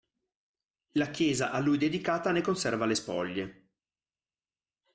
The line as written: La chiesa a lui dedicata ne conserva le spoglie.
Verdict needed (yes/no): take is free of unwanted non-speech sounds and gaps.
yes